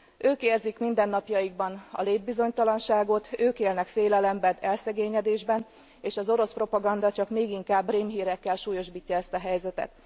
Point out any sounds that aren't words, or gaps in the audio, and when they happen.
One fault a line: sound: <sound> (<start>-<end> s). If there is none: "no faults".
no faults